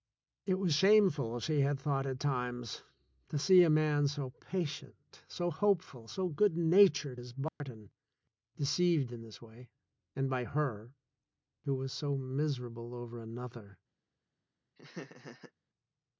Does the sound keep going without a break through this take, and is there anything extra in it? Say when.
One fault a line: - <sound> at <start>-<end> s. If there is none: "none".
- dropout at 7.5-7.6 s
- laugh at 14.8-15.5 s